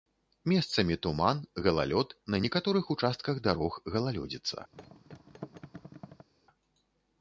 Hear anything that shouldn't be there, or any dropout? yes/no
yes